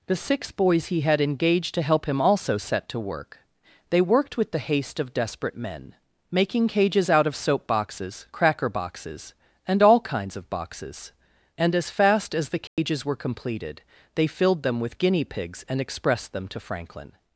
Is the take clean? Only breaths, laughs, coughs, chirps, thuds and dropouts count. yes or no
no